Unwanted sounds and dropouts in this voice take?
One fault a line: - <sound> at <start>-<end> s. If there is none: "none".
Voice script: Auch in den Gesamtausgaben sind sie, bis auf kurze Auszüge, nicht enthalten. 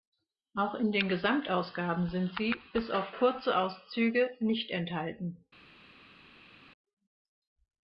none